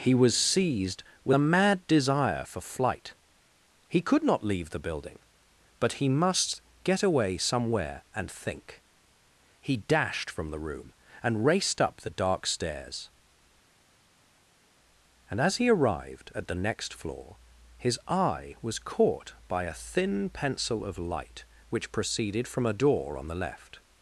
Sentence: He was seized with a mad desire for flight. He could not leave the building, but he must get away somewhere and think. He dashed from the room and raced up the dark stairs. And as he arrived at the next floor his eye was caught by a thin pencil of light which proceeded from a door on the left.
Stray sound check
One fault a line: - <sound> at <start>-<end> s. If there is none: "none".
none